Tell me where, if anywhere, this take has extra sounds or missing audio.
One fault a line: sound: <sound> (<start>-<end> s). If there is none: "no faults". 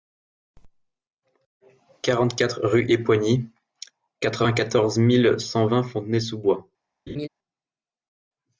sound: laugh (7.1-7.3 s)